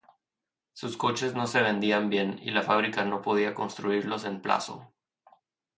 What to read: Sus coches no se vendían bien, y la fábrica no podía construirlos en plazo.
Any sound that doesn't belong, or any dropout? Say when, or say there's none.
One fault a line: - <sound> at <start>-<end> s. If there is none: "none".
none